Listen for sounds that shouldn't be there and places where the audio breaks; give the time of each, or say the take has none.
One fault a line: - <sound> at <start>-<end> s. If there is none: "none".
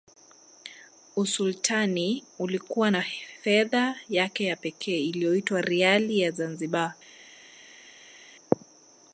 none